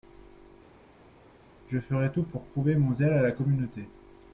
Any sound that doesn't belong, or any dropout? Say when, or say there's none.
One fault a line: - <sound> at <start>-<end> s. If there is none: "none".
none